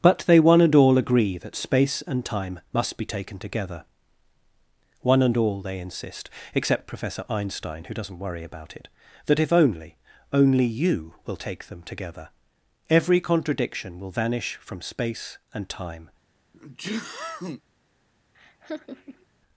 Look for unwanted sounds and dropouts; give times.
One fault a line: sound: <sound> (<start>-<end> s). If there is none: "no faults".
sound: sneeze (16.5-17.6 s)
sound: laugh (18.3-19.3 s)